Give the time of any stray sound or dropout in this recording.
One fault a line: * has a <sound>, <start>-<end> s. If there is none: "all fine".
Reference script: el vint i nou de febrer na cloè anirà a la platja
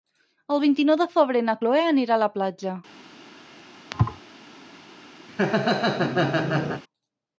* has a thud, 3.9-4.2 s
* has a laugh, 5.3-6.8 s